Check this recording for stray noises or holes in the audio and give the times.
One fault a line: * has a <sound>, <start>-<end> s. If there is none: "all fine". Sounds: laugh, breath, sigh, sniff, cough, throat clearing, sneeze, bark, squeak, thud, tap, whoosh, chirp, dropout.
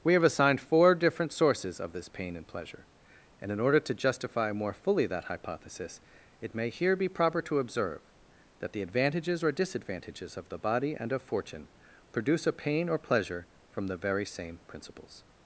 all fine